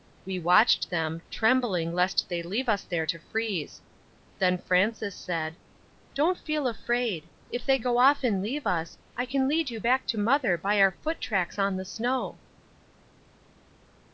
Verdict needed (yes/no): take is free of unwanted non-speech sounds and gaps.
yes